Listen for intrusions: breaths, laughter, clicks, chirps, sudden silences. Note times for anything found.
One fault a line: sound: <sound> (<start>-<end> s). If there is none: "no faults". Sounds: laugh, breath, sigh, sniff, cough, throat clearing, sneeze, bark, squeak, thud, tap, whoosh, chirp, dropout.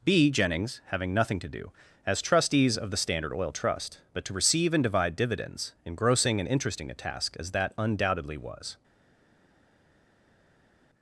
no faults